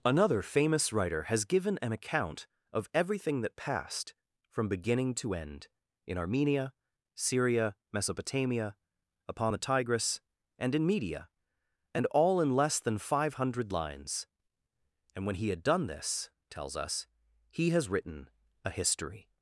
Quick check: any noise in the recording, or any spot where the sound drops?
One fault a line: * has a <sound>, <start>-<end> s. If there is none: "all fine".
all fine